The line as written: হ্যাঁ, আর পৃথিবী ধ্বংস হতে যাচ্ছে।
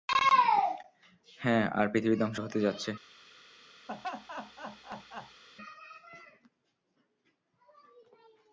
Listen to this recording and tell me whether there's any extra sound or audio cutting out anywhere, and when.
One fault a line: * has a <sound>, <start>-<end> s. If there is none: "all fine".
* has a laugh, 3.9-5.4 s